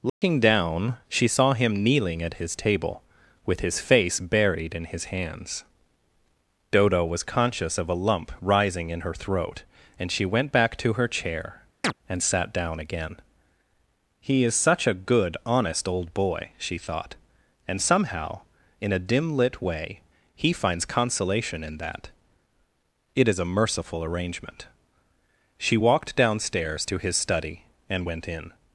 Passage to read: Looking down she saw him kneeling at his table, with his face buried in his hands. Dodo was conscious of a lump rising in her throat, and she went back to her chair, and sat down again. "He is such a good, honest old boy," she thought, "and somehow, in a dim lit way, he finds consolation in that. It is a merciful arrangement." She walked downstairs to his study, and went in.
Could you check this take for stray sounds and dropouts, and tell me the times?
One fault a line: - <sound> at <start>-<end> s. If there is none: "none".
- dropout at 0.1-0.2 s
- chirp at 11.8-11.9 s